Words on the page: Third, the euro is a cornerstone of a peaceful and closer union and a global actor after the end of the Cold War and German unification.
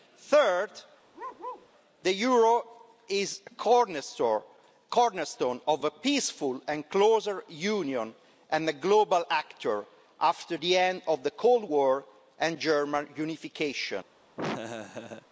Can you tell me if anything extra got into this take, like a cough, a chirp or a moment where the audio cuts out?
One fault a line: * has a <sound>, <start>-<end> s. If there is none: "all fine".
* has a bark, 1.1-1.7 s
* has a laugh, 14.4-15.3 s